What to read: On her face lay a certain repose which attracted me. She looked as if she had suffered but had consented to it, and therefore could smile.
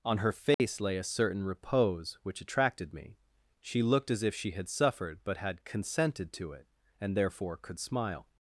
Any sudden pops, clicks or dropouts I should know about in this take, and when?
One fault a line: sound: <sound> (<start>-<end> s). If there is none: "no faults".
sound: dropout (0.5-0.6 s)